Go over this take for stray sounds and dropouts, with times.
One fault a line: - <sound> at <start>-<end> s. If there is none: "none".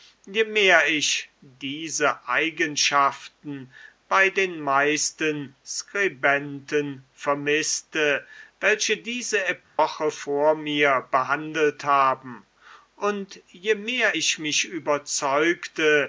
- dropout at 9.6-9.8 s